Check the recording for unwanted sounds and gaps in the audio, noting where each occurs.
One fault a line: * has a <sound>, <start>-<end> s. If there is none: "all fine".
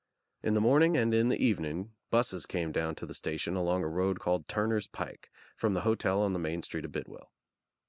all fine